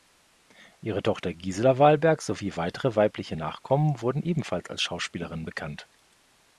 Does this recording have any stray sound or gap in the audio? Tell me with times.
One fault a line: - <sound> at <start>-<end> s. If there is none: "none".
none